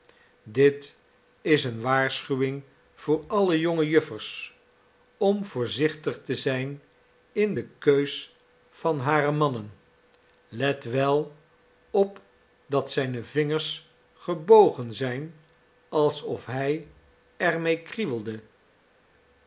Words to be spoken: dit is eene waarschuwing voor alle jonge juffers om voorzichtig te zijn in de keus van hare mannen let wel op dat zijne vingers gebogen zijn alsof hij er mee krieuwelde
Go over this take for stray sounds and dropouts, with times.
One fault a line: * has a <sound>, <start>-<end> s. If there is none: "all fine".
all fine